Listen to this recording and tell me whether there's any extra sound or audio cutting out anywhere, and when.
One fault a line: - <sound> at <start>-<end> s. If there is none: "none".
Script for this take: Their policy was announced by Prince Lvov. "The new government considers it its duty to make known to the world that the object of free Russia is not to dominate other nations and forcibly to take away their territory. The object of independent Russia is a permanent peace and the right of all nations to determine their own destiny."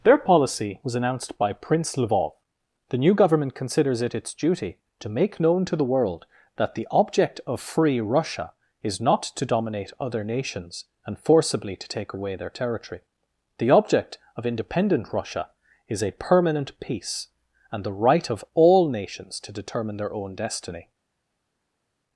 none